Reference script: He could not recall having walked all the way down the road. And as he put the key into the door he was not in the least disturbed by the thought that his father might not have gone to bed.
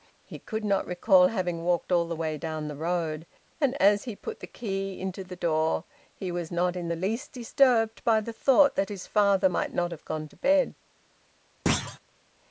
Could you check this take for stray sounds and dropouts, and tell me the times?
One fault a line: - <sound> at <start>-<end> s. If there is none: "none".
- thud at 11.7-12.0 s